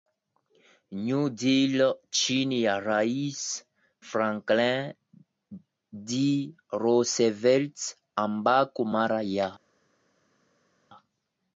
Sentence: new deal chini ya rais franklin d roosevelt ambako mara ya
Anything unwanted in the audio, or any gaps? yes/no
no